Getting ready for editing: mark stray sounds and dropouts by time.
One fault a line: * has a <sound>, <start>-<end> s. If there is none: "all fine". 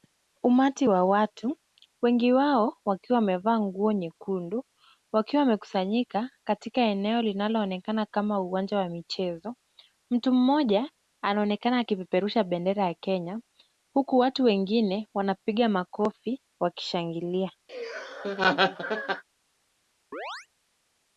* has a laugh, 17.7-19.2 s
* has a chirp, 20.1-20.5 s